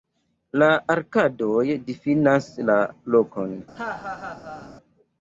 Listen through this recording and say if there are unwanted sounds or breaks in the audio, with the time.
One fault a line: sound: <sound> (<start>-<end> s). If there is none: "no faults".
sound: laugh (3.7-4.7 s)